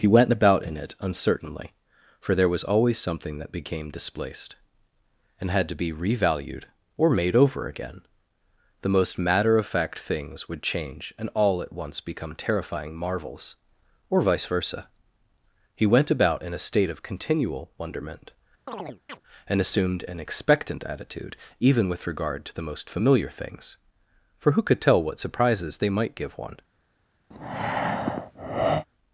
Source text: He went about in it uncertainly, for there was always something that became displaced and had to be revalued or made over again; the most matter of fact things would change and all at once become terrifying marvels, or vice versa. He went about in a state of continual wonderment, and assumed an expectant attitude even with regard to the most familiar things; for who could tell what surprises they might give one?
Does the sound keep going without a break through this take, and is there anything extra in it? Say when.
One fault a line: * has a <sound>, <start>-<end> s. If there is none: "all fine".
* has a chirp, 18.7-19.2 s
* has a breath, 27.3-28.9 s